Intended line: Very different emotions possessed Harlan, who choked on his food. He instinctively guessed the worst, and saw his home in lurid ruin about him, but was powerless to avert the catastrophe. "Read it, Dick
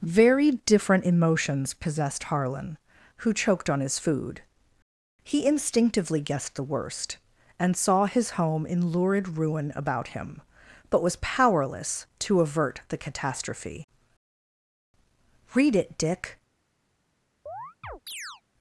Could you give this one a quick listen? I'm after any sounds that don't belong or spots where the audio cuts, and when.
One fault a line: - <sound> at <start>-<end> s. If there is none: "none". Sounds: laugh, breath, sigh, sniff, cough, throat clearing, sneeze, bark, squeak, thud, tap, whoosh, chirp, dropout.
- chirp at 17.5-18.4 s